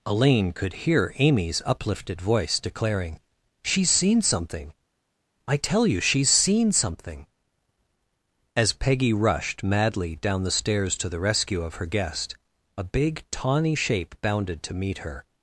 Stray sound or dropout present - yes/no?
no